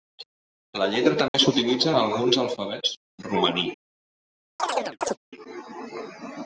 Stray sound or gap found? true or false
true